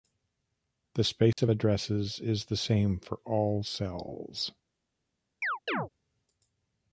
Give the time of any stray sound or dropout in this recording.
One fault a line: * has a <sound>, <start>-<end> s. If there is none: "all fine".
* has a dropout, 1.3-1.4 s
* has a chirp, 5.4-5.9 s